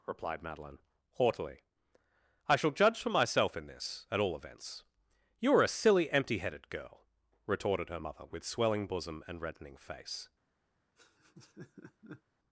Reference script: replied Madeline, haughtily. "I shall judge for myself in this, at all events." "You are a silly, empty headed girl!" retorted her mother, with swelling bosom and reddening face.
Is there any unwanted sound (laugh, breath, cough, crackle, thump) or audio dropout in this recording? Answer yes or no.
yes